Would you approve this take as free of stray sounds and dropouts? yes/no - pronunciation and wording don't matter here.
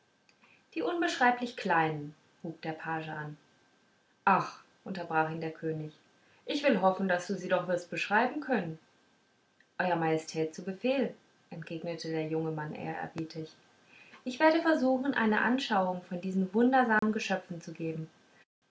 no